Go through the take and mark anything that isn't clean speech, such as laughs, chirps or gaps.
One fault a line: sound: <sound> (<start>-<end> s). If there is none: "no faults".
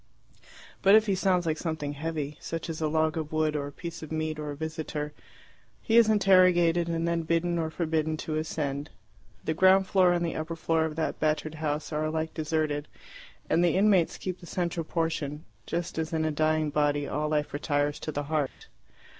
sound: dropout (18.5-18.6 s)